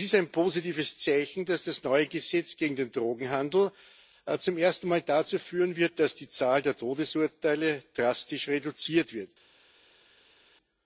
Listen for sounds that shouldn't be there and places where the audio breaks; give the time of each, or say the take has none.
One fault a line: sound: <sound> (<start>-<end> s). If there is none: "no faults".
no faults